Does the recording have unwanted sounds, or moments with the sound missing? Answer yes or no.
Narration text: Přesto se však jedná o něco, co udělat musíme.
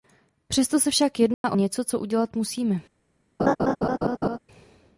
yes